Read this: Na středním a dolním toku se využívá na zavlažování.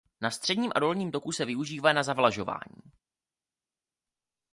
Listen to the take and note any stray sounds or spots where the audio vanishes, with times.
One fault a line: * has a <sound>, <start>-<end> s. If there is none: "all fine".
all fine